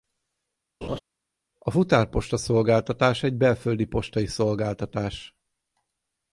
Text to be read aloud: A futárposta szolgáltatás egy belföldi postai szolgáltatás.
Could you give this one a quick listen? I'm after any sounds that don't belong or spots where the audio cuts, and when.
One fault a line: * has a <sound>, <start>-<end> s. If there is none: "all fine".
* has a laugh, 0.8-1.0 s